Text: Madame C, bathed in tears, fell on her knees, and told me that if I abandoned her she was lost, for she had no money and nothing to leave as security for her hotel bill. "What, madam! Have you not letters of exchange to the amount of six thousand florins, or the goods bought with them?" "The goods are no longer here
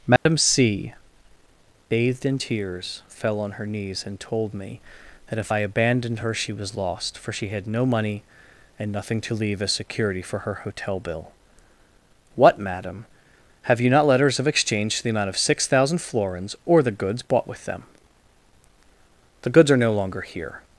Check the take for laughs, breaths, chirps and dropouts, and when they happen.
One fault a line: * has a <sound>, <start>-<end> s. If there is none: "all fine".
* has a dropout, 0.2-0.3 s